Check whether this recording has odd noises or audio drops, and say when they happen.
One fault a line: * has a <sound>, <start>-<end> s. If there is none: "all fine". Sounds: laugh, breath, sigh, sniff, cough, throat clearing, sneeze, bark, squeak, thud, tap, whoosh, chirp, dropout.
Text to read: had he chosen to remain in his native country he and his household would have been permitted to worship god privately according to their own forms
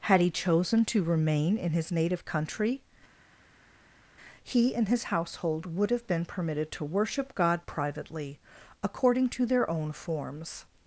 all fine